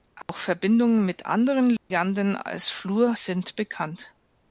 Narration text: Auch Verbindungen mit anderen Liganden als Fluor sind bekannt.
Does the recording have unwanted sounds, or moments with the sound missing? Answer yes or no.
yes